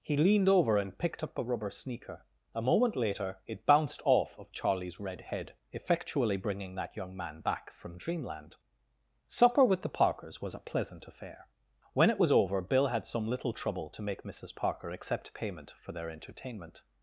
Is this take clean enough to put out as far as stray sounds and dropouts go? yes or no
yes